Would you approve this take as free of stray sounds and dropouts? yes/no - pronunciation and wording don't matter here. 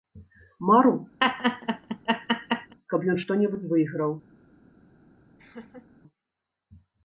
no